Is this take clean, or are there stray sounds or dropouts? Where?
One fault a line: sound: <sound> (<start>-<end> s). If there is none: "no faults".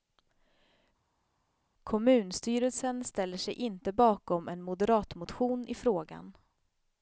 no faults